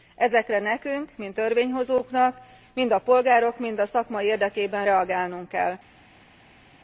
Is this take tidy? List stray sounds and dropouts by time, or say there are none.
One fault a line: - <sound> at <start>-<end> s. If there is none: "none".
none